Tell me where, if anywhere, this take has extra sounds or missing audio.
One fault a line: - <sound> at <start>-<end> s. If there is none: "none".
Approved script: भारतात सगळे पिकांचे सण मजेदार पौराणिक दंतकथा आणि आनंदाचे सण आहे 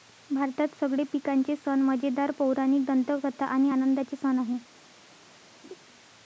- laugh at 5.6-5.8 s